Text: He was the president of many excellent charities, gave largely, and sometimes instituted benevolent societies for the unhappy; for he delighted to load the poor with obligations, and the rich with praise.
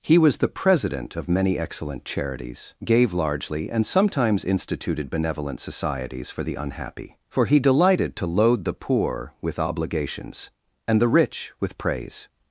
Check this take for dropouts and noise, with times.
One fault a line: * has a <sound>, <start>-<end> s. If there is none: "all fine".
all fine